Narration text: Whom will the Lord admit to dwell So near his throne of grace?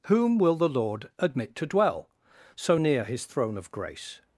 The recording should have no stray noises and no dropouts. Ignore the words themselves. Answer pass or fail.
pass